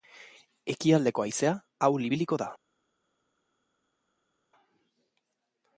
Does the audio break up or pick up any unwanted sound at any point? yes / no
no